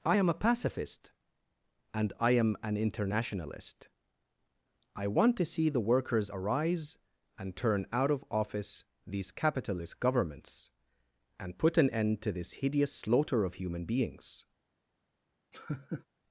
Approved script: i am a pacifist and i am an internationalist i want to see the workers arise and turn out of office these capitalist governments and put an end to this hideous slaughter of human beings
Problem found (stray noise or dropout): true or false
true